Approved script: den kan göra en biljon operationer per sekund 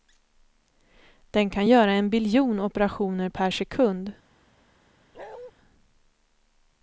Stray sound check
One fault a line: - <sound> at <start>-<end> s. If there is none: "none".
- bark at 5.1-5.5 s